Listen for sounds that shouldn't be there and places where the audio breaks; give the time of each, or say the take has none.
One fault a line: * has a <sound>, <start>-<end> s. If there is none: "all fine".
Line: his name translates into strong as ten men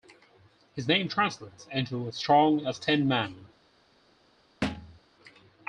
* has a thud, 4.6-5.0 s